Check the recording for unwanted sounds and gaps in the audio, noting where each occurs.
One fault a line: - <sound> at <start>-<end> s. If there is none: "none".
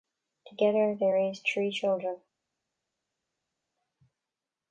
none